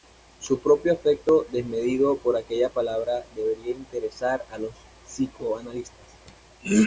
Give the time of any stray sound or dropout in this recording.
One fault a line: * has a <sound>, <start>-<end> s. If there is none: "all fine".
all fine